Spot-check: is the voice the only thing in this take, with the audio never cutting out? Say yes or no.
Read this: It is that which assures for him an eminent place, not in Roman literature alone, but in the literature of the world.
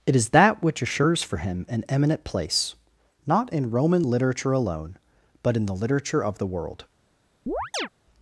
no